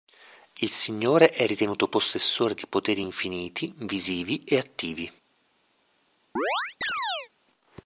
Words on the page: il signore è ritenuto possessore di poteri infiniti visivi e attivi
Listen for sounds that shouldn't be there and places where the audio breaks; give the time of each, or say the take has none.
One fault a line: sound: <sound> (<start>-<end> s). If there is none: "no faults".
sound: chirp (6.4-7.3 s)